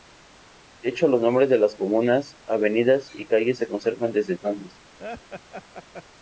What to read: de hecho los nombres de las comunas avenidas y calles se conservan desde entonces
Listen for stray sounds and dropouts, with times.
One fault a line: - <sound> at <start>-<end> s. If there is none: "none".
- laugh at 5.0-6.0 s